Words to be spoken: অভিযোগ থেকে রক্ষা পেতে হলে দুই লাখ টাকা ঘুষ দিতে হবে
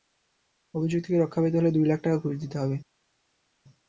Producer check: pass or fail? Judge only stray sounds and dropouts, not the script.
pass